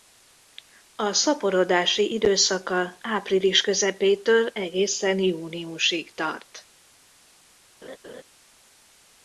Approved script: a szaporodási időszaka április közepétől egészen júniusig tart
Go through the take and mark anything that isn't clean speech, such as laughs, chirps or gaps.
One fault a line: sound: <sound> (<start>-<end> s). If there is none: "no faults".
sound: laugh (7.8-8.2 s)